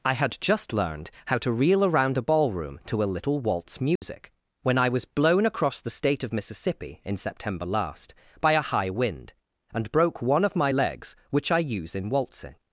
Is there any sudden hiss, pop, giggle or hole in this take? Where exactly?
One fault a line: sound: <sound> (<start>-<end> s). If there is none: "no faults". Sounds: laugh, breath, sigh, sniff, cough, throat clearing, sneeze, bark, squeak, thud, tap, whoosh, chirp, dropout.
sound: dropout (4.0-4.0 s)